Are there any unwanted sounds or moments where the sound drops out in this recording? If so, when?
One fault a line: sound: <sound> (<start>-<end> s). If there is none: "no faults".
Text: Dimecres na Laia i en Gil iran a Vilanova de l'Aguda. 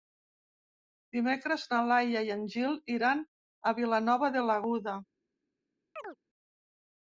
sound: chirp (6.0-6.2 s)